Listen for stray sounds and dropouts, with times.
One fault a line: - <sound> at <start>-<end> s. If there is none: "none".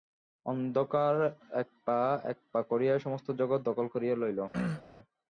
- throat clearing at 4.5-4.8 s